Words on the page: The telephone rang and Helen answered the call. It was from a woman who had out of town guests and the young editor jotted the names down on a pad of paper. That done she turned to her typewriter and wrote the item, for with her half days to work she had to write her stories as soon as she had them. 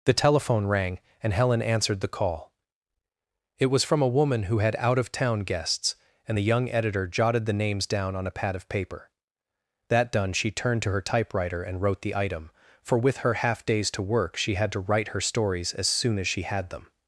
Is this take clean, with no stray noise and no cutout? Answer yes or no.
yes